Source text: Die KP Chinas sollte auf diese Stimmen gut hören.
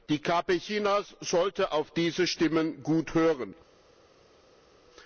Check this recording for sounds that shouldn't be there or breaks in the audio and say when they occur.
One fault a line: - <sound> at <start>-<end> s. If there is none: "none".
none